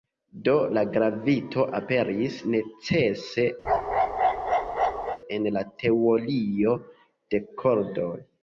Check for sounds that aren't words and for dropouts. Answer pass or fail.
fail